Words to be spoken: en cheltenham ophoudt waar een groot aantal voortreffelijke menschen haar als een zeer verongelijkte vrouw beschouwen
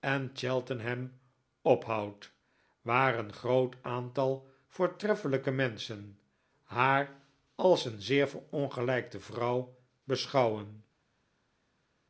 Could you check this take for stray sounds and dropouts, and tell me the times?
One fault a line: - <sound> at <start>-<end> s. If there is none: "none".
none